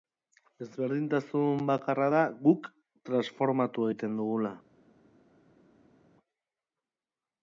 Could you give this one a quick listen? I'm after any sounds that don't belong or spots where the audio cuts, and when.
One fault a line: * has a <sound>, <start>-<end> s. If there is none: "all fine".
all fine